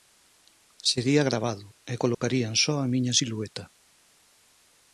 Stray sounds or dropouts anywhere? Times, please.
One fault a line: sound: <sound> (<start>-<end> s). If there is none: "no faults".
sound: dropout (2.1-2.2 s)